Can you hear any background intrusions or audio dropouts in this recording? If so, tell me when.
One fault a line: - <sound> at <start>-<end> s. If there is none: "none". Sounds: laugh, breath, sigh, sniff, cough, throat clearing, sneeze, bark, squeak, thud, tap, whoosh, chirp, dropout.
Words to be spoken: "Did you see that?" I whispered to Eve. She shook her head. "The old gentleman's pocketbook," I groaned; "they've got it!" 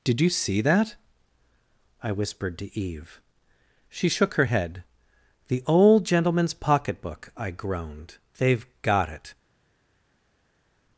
none